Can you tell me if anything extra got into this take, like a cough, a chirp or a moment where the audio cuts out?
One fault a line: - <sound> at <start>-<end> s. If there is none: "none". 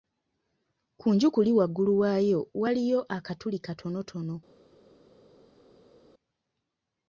none